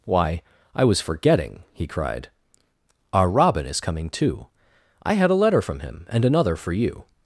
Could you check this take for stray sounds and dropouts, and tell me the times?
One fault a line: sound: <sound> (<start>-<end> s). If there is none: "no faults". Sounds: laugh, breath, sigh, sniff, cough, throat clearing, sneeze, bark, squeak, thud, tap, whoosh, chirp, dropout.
no faults